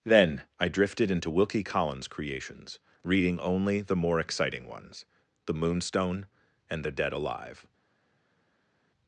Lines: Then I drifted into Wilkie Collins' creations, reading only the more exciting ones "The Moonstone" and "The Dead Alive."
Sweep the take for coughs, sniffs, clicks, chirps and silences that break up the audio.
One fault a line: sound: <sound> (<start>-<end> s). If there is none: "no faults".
no faults